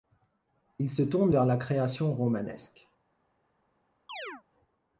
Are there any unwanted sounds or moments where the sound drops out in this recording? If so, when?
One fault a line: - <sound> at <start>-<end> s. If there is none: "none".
- chirp at 4.1-4.4 s